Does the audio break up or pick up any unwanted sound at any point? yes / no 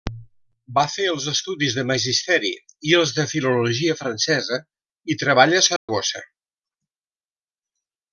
yes